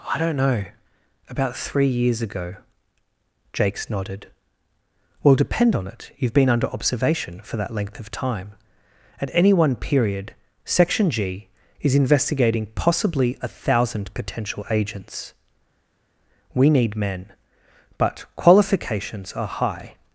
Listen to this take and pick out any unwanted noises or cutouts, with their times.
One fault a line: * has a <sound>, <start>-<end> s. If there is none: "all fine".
all fine